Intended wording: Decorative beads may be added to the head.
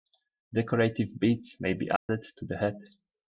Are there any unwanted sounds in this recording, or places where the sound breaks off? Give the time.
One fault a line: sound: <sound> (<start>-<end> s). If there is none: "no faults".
sound: dropout (2.0-2.1 s)